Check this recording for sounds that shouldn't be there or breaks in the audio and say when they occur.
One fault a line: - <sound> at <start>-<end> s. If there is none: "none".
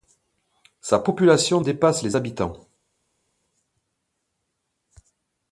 none